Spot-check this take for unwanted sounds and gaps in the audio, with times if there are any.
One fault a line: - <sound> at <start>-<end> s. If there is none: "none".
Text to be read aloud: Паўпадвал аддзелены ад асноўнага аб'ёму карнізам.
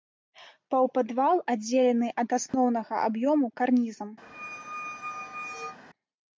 - dropout at 2.5-2.5 s
- squeak at 4.2-5.8 s